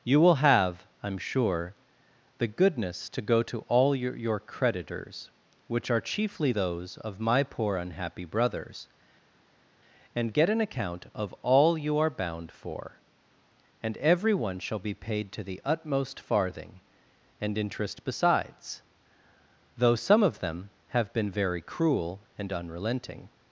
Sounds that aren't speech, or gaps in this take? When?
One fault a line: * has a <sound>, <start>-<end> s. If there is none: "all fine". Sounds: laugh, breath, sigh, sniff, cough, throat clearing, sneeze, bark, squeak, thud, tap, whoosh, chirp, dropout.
all fine